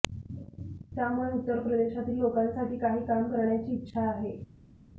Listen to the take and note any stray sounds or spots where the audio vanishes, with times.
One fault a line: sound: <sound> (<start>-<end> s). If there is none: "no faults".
no faults